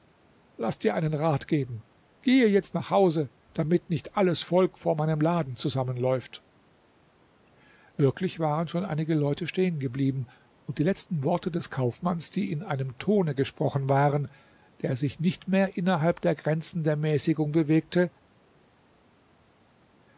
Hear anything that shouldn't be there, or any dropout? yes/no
no